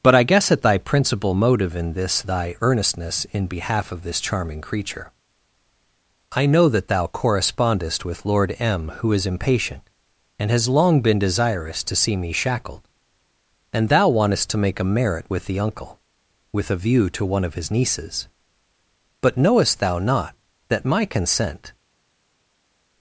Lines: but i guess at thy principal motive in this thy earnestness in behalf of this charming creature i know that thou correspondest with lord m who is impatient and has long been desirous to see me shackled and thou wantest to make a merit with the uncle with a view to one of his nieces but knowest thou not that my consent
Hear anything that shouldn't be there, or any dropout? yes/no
no